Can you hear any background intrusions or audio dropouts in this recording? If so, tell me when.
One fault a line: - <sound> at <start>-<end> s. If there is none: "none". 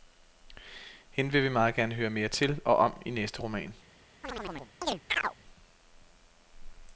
- chirp at 4.2-5.3 s